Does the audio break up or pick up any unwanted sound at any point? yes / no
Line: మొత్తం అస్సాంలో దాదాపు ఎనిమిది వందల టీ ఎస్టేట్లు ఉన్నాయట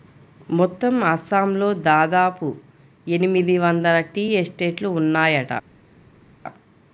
no